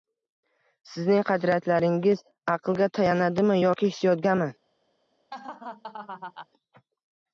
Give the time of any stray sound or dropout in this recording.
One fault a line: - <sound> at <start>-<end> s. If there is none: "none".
- laugh at 5.3-6.5 s